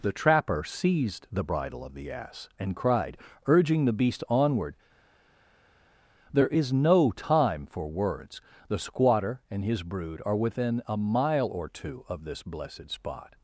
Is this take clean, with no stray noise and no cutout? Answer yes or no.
yes